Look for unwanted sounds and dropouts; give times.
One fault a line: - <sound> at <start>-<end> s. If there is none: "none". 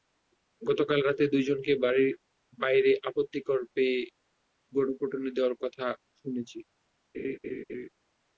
- laugh at 7.1-7.9 s